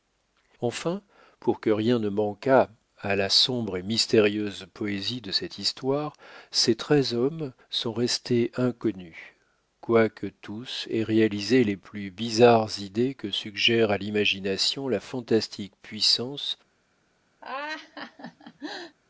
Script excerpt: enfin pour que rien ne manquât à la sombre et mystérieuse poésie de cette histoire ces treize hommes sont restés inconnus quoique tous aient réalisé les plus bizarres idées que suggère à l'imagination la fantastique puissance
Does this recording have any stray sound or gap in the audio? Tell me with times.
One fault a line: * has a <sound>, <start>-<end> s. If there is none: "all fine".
* has a laugh, 17.4-19.0 s